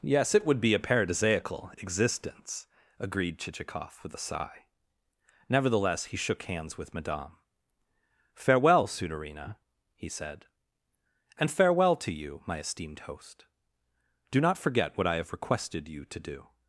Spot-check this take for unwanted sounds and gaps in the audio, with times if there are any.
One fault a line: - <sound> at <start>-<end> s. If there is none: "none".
none